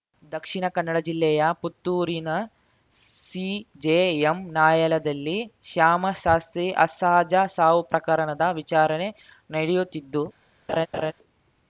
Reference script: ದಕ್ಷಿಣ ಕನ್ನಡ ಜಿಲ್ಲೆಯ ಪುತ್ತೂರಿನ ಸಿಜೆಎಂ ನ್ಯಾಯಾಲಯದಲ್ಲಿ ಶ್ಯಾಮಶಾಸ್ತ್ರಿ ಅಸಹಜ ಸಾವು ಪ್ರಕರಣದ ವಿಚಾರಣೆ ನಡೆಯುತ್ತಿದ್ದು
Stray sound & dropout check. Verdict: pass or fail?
fail